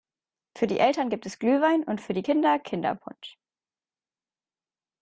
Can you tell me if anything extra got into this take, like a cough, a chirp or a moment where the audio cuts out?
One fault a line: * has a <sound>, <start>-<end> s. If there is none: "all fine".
all fine